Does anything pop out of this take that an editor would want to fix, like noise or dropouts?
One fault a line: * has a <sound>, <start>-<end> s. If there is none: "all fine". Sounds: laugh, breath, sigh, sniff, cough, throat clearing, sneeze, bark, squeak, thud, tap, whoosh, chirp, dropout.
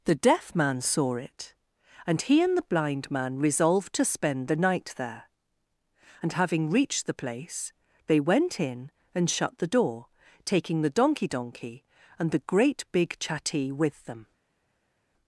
all fine